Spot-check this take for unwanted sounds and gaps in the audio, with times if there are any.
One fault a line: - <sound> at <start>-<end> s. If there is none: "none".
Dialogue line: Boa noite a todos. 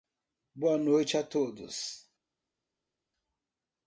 none